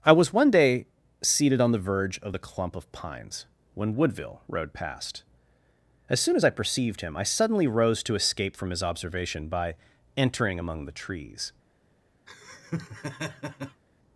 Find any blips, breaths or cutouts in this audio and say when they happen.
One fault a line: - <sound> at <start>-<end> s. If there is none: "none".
- laugh at 12.3-13.8 s